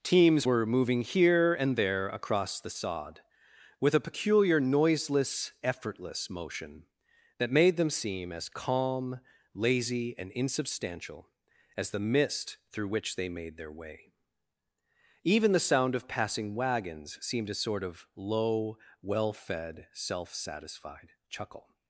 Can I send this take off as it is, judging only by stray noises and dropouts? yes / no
yes